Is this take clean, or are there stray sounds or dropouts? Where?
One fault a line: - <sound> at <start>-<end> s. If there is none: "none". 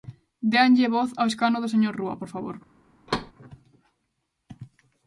- thud at 3.1-3.3 s